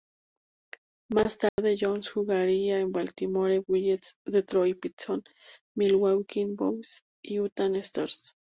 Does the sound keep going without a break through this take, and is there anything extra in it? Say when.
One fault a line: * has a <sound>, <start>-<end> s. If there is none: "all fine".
* has a dropout, 1.5-1.6 s